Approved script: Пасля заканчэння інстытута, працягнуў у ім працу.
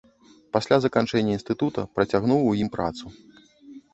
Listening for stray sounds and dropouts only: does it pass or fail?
pass